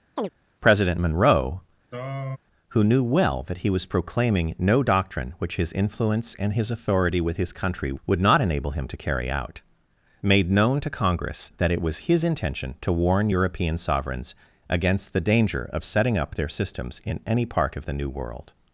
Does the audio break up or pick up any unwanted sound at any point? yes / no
yes